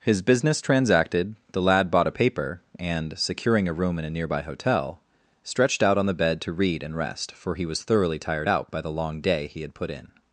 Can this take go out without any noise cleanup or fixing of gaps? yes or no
yes